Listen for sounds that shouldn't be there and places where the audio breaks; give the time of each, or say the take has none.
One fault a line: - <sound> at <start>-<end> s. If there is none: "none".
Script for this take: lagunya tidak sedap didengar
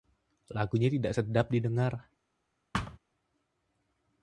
- thud at 2.7-3.0 s